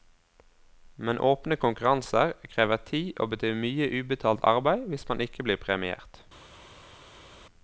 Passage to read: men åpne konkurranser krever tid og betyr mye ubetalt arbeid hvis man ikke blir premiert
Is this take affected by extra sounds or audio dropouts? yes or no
no